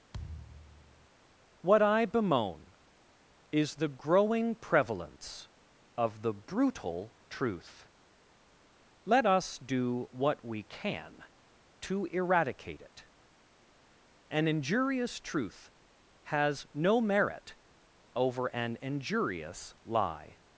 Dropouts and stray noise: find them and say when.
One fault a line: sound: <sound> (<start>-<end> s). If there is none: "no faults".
sound: thud (0.1-1.1 s)